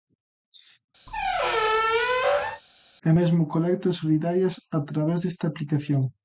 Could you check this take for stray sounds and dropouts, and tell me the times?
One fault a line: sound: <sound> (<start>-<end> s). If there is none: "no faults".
sound: squeak (1.1-2.6 s)